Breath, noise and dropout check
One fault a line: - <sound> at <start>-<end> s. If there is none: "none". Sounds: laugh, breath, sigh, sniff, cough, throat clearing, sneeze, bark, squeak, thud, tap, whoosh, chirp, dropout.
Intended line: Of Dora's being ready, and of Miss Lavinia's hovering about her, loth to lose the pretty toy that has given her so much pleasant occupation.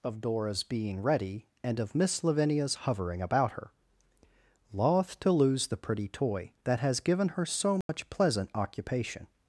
- dropout at 7.8-7.9 s